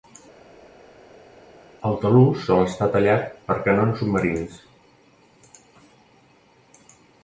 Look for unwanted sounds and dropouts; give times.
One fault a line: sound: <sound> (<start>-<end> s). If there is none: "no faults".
no faults